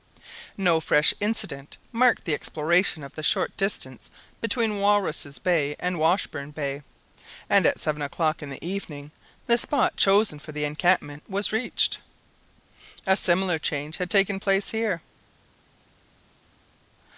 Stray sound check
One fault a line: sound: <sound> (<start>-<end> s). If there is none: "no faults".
no faults